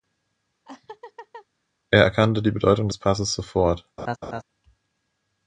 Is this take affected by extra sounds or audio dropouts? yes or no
yes